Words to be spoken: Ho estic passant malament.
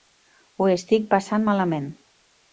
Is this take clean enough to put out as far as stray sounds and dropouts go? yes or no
yes